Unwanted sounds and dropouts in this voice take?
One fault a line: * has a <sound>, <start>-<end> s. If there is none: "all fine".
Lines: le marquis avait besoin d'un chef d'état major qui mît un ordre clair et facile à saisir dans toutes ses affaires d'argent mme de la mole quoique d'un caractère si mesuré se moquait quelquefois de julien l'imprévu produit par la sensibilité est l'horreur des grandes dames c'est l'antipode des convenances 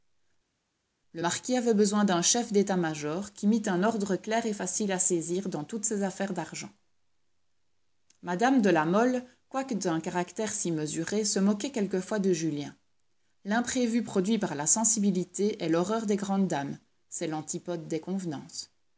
all fine